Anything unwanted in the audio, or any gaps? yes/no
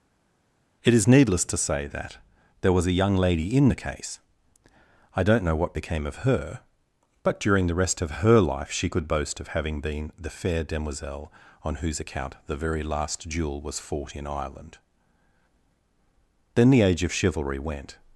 no